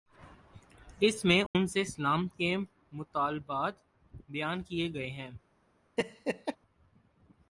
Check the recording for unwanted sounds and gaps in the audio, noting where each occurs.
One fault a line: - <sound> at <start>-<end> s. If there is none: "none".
- dropout at 1.5-1.5 s
- laugh at 6.0-6.6 s